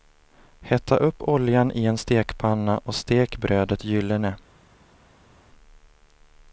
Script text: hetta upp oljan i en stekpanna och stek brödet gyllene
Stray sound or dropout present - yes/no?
no